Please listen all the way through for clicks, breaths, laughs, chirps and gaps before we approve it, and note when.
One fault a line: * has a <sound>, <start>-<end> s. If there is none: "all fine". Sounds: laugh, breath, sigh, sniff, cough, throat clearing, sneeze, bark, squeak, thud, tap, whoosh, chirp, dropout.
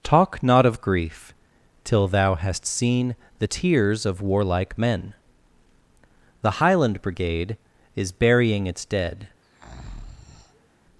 * has a breath, 9.4-10.7 s